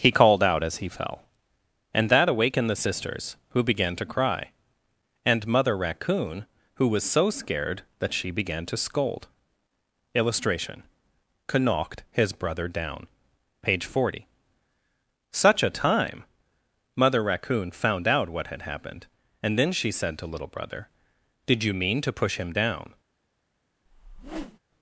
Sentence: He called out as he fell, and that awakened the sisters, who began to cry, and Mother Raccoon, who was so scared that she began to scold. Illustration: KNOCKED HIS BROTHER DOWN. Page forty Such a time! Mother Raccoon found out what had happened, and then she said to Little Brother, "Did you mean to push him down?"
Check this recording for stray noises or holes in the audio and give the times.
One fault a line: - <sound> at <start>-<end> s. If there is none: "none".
- whoosh at 23.9-24.6 s